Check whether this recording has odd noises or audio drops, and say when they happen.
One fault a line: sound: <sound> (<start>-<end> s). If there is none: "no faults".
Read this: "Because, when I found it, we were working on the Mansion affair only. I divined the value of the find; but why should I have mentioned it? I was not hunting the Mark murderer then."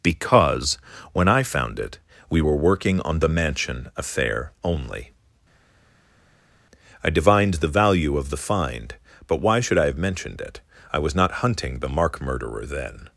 no faults